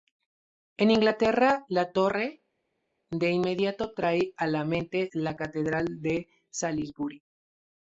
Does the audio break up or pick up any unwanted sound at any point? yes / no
no